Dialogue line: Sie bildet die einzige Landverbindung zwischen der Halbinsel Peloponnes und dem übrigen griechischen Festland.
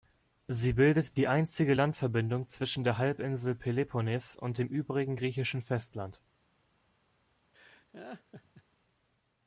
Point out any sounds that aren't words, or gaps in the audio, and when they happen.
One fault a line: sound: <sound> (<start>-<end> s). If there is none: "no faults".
sound: laugh (7.5-8.6 s)